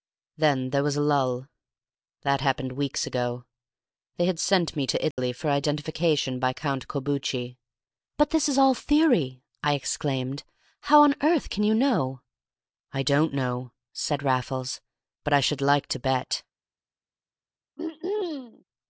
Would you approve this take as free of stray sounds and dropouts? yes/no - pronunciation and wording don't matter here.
no